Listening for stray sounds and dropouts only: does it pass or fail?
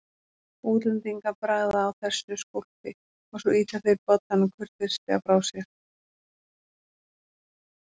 pass